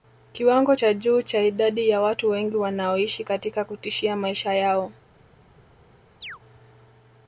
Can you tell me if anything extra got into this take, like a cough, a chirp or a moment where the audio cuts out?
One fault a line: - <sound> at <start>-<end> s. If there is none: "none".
- chirp at 6.2-6.4 s